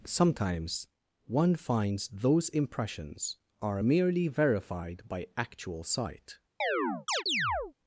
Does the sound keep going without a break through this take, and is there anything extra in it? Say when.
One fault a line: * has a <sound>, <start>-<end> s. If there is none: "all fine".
* has a chirp, 6.6-7.7 s